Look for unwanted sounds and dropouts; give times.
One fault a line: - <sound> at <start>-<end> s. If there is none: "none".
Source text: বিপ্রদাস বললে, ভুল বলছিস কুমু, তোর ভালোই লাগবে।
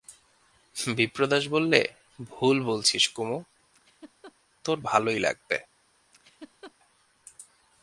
- laugh at 3.7-4.4 s
- laugh at 6.1-6.7 s